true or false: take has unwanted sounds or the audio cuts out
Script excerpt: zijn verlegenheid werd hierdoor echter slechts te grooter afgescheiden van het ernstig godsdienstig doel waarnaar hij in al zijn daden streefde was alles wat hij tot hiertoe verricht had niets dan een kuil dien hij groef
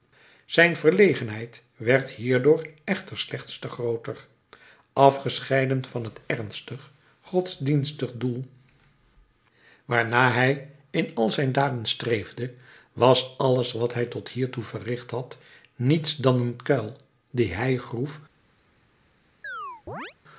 true